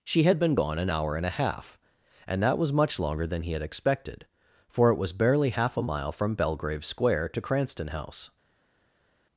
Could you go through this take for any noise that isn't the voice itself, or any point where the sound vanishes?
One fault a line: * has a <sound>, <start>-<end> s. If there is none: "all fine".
all fine